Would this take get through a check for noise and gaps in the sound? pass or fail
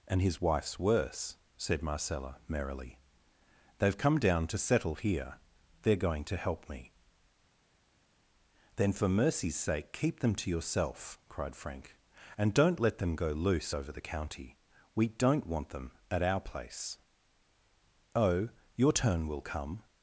pass